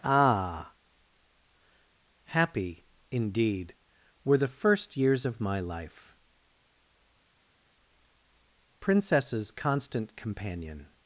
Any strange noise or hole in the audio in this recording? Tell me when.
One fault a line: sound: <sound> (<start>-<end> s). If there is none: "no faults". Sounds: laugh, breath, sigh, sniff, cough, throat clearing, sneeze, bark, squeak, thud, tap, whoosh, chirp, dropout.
no faults